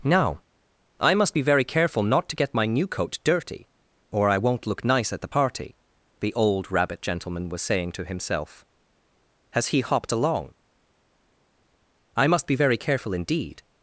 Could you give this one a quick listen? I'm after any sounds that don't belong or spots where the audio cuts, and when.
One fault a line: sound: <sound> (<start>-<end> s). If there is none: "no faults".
no faults